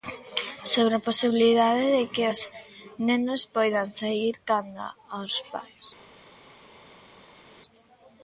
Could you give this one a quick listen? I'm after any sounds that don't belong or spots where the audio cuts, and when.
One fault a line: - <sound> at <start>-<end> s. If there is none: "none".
none